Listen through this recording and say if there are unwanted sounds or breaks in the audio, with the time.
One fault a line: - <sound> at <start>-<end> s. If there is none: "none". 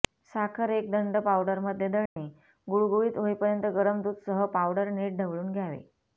- dropout at 2.1-2.2 s